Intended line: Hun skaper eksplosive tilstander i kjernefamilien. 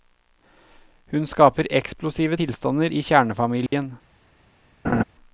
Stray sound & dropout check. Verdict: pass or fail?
fail